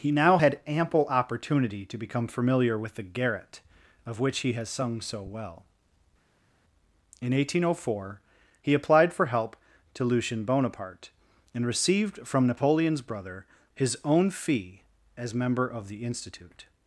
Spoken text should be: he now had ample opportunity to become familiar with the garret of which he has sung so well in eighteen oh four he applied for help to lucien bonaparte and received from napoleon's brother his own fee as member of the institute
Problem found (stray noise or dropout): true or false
false